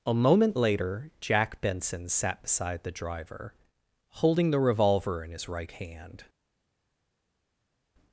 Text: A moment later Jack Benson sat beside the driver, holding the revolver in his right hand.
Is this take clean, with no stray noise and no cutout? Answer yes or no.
yes